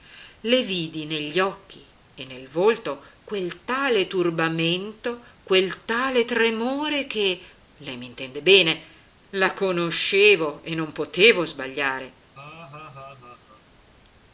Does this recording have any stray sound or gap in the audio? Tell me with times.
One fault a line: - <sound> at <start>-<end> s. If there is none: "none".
- laugh at 12.3-13.6 s